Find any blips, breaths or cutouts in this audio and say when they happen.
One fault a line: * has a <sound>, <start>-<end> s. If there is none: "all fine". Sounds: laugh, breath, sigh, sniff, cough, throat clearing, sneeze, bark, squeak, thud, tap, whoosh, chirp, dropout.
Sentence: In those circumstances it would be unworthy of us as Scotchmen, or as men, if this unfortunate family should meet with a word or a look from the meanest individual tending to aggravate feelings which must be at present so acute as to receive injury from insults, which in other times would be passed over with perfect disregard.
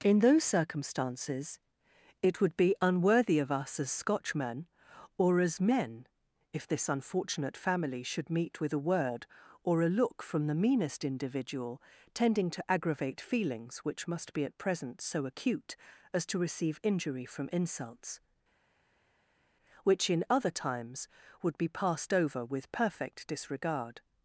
all fine